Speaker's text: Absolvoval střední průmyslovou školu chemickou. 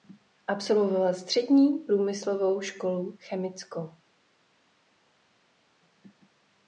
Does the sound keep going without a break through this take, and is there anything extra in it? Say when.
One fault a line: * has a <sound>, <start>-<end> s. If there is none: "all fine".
all fine